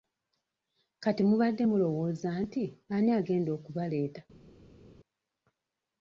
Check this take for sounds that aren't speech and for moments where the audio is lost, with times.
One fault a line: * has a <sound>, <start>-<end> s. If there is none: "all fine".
all fine